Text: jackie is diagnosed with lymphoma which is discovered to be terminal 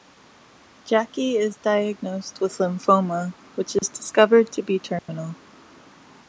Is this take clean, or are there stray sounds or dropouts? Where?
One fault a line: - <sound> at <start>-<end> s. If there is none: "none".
- dropout at 3.8-3.8 s
- dropout at 5.0-5.1 s